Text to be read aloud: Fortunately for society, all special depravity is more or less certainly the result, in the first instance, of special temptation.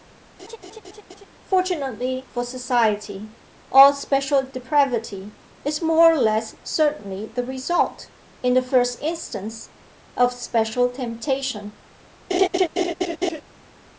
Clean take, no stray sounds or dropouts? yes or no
no